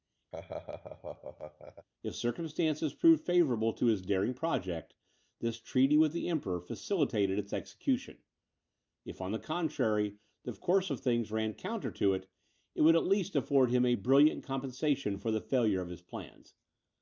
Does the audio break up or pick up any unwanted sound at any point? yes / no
yes